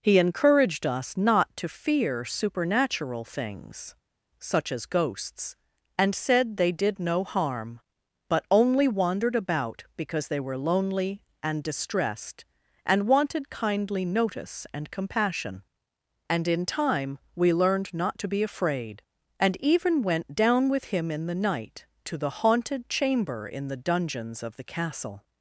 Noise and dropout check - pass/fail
pass